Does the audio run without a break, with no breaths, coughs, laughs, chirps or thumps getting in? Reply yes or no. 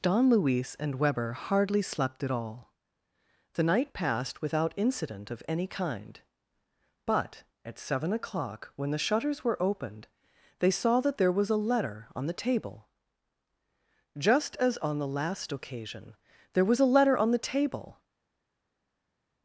yes